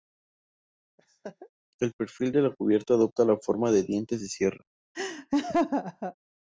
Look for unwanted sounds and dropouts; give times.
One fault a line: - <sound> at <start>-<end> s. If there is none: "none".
- laugh at 1.0-1.5 s
- laugh at 4.9-6.1 s